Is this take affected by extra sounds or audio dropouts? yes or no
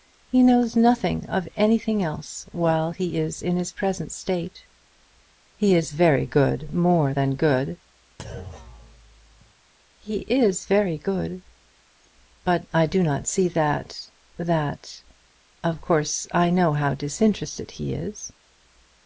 yes